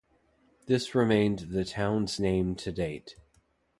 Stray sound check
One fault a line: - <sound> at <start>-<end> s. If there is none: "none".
none